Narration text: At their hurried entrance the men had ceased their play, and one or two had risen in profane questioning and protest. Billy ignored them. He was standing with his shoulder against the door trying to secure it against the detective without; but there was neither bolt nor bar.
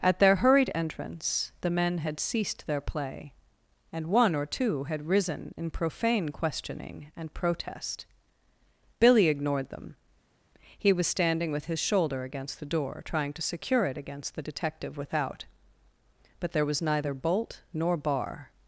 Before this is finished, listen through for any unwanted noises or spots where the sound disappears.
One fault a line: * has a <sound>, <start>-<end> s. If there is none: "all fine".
all fine